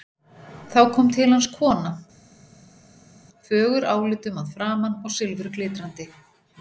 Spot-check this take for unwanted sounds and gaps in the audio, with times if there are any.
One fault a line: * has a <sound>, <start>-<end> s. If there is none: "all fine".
all fine